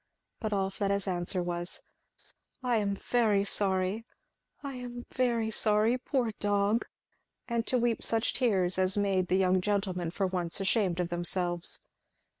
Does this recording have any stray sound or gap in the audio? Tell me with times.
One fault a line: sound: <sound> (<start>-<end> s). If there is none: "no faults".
sound: laugh (2.2-2.3 s)